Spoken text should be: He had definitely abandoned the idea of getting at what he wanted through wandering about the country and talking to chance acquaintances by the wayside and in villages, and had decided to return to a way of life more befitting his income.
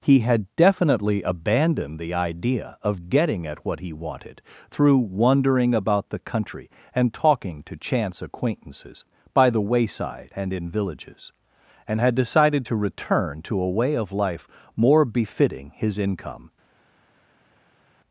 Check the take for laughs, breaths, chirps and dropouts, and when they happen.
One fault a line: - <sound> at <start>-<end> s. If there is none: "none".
none